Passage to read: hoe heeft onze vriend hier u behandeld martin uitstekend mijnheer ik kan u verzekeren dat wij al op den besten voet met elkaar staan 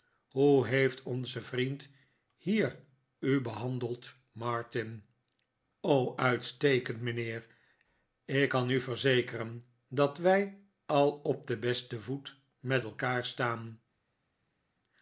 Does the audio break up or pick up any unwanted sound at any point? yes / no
no